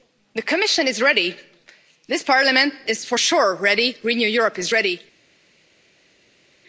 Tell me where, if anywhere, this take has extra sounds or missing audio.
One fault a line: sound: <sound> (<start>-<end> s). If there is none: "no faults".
no faults